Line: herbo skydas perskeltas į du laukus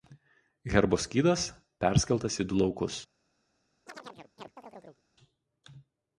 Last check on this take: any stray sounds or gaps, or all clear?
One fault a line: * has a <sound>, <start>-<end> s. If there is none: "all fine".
* has a chirp, 3.9-5.0 s